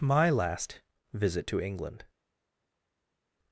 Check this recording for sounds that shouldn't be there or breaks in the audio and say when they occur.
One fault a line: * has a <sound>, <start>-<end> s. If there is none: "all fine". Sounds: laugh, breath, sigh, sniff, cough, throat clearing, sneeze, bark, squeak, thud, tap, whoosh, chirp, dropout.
all fine